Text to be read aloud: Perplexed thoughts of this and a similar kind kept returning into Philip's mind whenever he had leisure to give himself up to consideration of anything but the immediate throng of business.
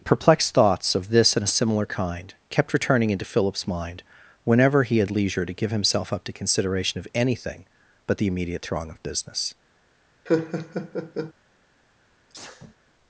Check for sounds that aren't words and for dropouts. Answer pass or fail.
fail